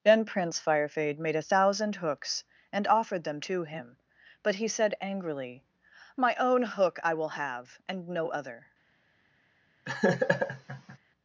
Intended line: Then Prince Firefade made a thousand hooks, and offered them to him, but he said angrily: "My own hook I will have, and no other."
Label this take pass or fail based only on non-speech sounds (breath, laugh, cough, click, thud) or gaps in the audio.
fail